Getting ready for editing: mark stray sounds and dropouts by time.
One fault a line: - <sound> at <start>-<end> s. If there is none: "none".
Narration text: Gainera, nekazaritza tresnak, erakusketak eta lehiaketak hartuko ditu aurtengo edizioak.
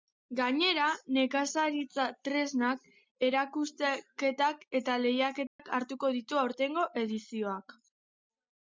- dropout at 5.5-5.6 s